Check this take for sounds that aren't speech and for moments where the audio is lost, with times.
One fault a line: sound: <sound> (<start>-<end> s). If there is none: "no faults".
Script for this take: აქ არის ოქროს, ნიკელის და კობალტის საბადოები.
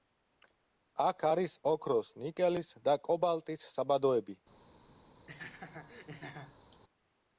sound: laugh (5.3-6.8 s)